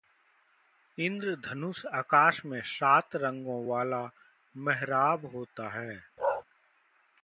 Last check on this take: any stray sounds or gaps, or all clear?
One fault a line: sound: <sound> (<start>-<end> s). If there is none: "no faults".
sound: bark (6.2-6.4 s)